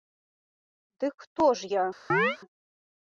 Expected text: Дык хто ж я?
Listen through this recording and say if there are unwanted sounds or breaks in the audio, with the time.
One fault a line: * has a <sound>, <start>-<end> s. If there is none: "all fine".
* has a chirp, 2.1-2.4 s